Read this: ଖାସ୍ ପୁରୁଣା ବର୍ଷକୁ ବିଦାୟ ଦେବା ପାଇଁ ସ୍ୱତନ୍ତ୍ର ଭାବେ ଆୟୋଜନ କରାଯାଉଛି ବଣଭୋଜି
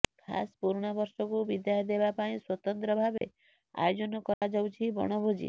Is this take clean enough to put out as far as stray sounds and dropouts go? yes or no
no